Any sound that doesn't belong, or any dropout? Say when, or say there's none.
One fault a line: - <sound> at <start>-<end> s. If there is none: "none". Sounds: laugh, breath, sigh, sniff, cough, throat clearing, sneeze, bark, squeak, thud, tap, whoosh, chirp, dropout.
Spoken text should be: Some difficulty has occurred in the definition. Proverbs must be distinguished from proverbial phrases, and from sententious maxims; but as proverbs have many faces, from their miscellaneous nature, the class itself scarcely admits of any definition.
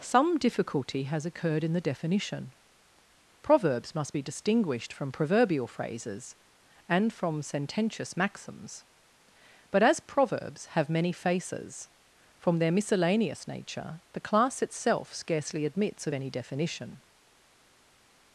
none